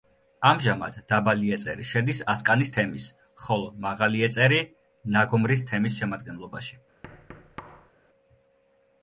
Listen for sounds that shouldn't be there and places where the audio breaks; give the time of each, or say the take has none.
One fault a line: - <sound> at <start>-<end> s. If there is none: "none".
- thud at 7.0-7.9 s